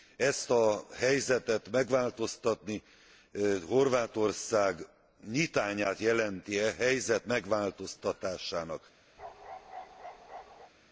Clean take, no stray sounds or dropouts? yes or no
no